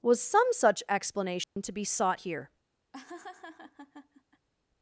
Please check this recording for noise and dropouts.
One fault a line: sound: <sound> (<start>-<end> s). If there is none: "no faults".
sound: dropout (1.4-1.6 s)
sound: laugh (2.9-4.5 s)